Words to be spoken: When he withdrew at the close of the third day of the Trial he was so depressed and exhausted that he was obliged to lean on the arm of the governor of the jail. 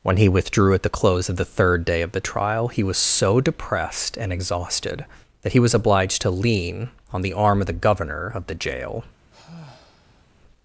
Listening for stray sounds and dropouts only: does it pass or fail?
fail